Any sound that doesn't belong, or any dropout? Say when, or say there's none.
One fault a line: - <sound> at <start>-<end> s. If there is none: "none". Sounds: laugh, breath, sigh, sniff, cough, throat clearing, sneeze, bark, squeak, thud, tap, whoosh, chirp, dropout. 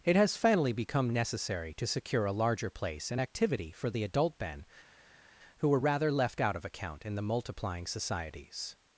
none